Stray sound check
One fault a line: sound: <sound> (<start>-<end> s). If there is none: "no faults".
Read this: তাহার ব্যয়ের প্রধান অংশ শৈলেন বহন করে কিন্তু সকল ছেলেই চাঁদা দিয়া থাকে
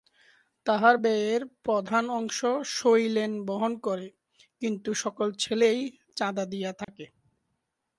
sound: dropout (6.8-6.9 s)